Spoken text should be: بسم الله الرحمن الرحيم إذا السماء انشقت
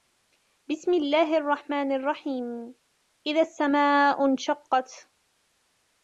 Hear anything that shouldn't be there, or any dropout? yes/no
no